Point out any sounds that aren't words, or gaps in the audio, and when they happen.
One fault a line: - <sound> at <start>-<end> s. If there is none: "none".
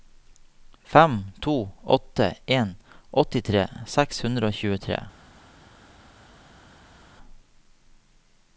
none